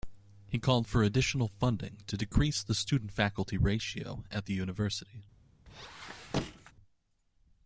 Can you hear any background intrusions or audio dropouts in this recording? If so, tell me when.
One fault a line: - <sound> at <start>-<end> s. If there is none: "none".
- squeak at 5.7-6.7 s